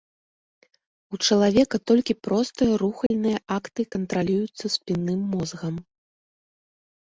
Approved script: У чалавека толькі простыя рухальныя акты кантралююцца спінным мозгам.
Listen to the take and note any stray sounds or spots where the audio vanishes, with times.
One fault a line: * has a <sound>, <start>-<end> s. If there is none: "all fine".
* has a dropout, 3.1-3.1 s